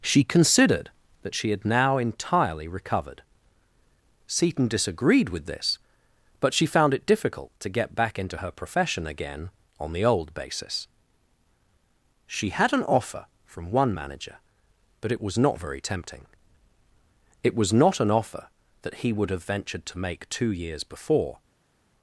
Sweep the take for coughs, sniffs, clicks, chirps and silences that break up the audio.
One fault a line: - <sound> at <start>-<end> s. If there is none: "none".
none